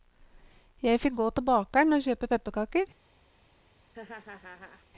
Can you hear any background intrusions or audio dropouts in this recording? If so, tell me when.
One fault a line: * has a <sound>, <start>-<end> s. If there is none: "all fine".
* has a laugh, 3.9-4.9 s